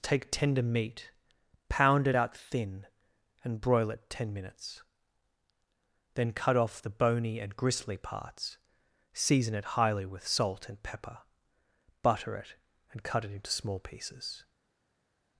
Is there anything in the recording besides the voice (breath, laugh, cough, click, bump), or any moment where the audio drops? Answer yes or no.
no